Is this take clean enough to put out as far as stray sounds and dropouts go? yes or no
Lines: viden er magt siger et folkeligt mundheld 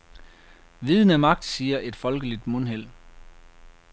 yes